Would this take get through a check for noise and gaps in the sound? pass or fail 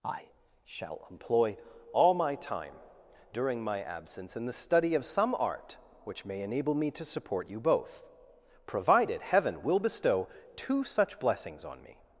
pass